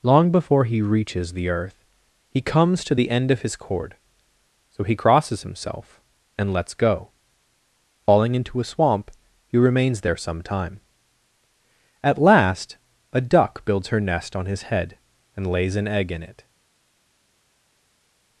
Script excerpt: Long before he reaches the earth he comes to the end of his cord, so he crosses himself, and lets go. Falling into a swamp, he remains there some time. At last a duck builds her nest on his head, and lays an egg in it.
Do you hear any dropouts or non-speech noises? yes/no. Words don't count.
no